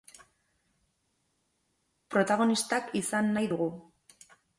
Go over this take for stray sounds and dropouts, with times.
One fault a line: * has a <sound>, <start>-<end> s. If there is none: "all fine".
all fine